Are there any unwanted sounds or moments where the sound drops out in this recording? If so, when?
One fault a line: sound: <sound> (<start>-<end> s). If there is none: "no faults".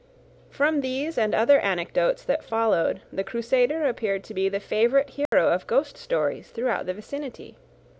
sound: dropout (5.3-5.3 s)